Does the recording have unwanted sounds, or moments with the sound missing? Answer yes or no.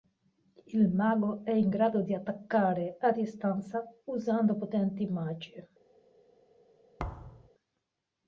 yes